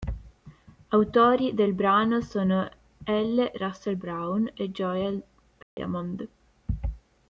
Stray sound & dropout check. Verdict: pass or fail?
fail